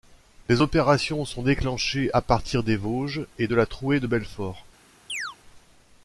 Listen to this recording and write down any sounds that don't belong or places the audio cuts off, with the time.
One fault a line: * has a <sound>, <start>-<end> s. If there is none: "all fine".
* has a chirp, 5.1-5.4 s